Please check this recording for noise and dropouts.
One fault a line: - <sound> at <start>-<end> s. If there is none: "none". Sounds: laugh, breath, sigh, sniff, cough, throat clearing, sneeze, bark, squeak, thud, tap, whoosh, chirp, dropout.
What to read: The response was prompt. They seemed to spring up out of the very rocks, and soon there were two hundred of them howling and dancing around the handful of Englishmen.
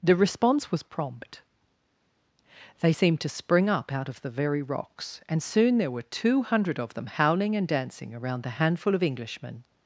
none